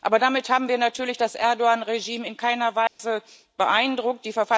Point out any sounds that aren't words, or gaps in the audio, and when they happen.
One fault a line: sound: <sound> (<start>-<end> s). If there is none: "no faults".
sound: dropout (2.9-3.0 s)